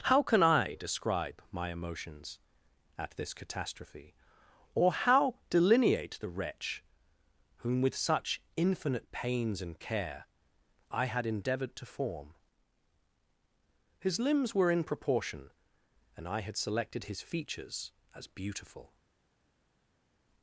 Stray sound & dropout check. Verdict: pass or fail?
pass